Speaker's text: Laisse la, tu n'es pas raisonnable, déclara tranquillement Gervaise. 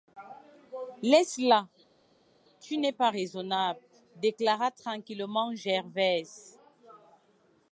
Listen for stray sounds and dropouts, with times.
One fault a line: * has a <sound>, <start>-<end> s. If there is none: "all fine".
all fine